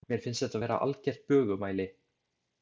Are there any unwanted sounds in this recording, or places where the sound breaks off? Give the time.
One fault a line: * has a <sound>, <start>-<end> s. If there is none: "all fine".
all fine